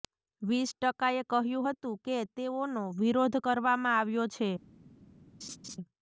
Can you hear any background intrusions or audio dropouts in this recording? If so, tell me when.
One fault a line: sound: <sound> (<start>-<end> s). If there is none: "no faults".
sound: laugh (5.4-5.8 s)